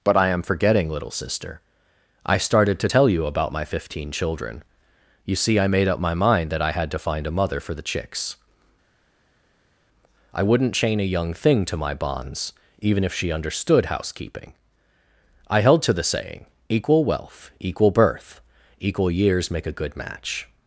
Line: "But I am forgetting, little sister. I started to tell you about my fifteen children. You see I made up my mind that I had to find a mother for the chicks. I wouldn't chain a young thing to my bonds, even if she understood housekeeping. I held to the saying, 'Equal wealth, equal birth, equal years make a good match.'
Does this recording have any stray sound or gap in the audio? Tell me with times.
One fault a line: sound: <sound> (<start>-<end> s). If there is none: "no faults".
no faults